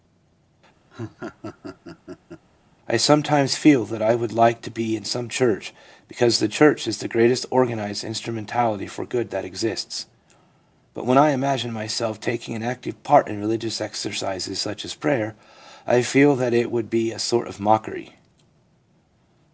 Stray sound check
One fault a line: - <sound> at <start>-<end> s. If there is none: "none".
- laugh at 0.9-2.5 s